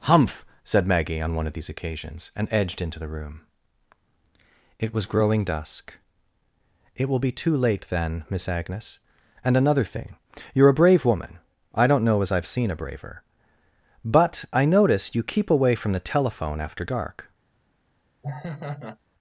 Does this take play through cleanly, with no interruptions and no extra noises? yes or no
no